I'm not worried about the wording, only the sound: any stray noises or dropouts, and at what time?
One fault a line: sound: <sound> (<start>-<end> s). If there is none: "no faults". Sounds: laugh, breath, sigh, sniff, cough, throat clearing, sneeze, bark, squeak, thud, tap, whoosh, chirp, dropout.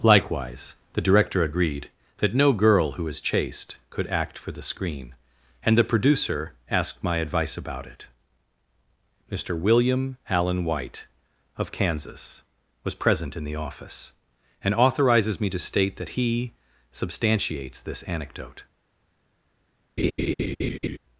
sound: laugh (20.0-21.0 s)